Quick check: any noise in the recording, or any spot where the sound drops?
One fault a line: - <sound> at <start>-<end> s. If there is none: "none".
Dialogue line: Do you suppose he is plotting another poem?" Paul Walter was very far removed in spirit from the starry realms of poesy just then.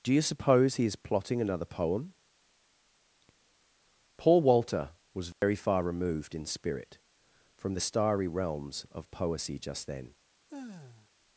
- dropout at 5.3-5.4 s
- sigh at 10.5-11.1 s